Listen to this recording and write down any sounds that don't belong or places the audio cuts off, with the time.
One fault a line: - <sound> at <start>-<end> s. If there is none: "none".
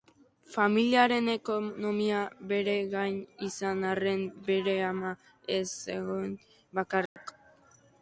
- dropout at 7.1-7.2 s